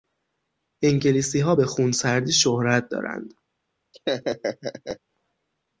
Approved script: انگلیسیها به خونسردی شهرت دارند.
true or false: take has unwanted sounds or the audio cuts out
true